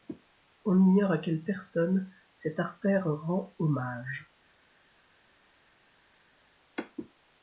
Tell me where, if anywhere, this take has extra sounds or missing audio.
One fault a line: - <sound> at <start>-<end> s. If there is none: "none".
none